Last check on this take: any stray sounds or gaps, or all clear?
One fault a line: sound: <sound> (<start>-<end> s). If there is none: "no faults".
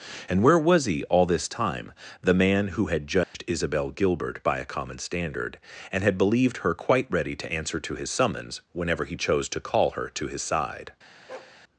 sound: dropout (3.2-3.3 s)
sound: bark (11.3-11.6 s)